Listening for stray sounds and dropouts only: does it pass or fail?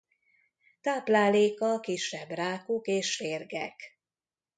pass